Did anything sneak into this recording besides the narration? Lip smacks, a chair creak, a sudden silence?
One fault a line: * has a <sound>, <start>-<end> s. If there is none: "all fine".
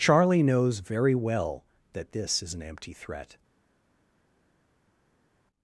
all fine